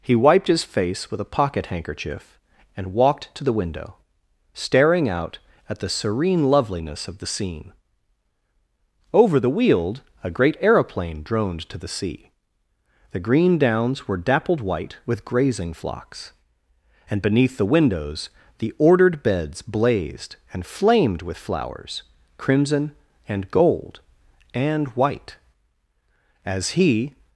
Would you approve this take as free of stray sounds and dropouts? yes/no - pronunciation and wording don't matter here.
yes